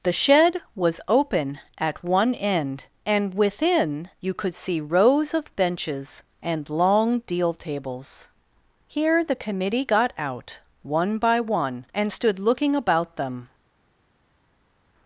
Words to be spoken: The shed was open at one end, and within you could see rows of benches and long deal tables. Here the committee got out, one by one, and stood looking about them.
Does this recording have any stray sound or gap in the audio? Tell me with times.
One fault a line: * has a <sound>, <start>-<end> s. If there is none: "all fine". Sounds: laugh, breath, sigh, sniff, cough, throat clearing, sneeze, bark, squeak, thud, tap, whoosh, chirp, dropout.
all fine